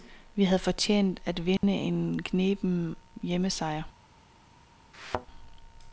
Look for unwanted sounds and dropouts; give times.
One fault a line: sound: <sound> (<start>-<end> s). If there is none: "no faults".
sound: dropout (1.6-1.6 s)
sound: thud (4.9-5.3 s)